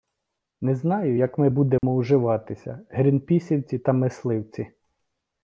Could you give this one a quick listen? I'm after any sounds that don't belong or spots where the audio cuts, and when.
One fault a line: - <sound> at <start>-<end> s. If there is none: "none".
- dropout at 1.8-1.8 s